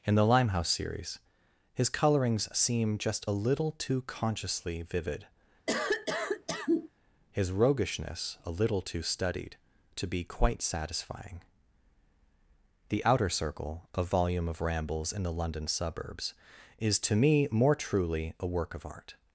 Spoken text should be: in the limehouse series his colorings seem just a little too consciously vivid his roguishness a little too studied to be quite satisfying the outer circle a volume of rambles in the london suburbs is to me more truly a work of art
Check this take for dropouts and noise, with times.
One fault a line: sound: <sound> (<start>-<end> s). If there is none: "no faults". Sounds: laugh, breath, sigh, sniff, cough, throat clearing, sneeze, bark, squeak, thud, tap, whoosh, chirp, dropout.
sound: cough (5.7-6.9 s)